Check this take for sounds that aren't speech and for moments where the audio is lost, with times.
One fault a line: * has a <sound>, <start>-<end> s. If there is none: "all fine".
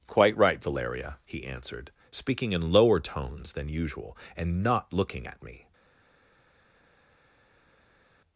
all fine